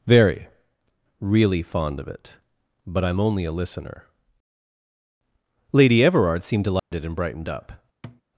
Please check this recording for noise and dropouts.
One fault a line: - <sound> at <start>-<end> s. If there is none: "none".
- dropout at 6.8-6.9 s
- thud at 8.0-8.2 s